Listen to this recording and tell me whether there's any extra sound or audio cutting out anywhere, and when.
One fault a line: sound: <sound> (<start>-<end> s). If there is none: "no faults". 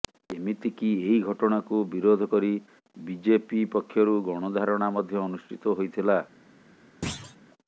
sound: thud (7.0-7.4 s)